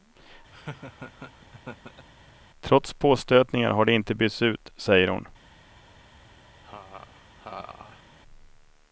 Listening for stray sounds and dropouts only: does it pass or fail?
fail